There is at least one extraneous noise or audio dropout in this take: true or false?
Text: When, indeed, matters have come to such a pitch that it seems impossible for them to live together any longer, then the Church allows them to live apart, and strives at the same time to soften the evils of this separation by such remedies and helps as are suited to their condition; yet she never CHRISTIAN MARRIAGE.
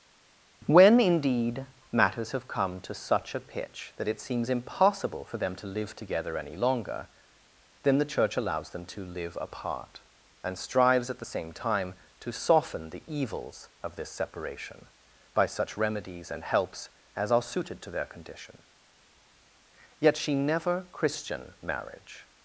false